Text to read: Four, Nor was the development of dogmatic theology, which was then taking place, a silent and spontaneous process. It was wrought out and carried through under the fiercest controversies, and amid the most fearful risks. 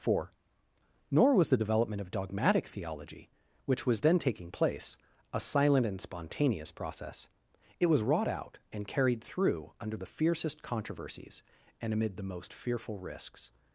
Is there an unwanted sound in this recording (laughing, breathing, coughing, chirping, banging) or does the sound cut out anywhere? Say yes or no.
no